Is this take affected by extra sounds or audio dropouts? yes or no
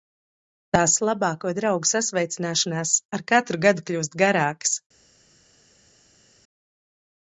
no